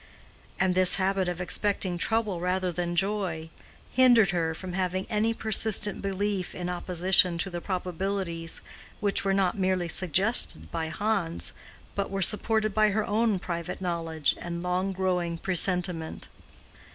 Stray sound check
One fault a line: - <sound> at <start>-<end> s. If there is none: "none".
none